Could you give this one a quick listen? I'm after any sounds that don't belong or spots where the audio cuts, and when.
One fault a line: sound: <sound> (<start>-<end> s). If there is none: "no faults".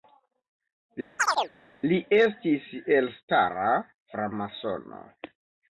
sound: chirp (1.2-1.5 s)